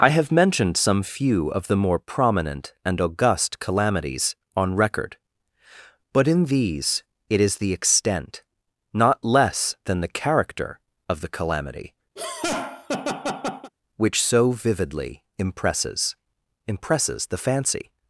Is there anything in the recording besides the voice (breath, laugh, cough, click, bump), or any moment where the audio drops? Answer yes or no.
yes